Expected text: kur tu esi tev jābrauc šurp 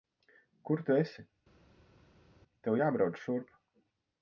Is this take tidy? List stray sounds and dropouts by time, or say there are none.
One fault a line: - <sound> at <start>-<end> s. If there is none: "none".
none